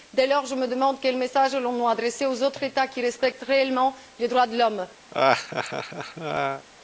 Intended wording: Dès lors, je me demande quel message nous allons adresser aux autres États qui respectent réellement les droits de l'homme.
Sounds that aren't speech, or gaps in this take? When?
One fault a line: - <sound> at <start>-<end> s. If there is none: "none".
- laugh at 5.1-6.7 s